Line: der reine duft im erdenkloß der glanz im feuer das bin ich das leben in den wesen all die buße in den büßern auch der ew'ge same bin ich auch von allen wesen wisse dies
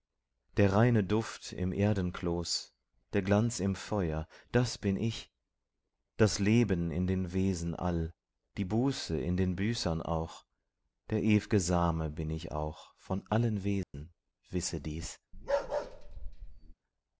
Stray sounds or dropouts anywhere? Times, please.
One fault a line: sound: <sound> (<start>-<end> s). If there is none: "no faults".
sound: dropout (13.8-13.9 s)
sound: bark (15.3-16.7 s)